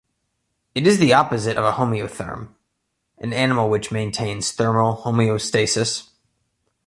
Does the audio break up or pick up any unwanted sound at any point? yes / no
no